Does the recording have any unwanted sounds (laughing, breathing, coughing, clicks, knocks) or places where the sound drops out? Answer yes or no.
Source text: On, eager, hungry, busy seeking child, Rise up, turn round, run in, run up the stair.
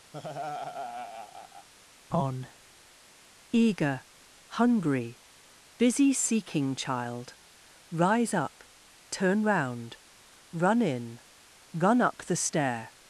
yes